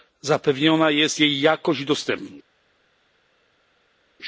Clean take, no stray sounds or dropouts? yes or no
yes